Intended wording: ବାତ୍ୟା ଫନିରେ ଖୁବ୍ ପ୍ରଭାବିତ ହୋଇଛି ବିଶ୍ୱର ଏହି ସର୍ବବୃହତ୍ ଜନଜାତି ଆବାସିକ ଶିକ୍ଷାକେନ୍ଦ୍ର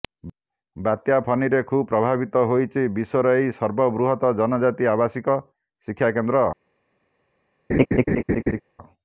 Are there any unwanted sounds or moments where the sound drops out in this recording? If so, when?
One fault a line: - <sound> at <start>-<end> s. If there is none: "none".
- laugh at 7.7-8.6 s